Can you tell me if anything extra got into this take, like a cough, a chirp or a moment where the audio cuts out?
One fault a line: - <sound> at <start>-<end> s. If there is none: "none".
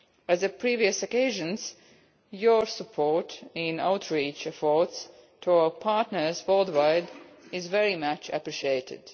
none